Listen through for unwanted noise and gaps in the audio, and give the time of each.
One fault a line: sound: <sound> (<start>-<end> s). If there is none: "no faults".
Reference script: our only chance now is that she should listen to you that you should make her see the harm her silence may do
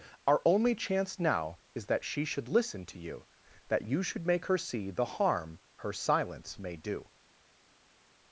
no faults